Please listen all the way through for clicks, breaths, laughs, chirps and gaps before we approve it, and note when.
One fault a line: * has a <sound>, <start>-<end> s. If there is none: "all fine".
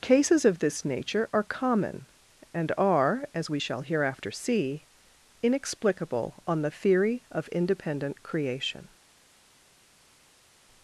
all fine